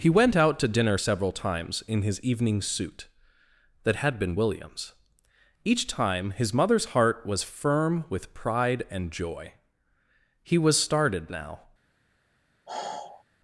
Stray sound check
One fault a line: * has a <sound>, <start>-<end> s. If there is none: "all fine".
* has a sigh, 12.7-13.2 s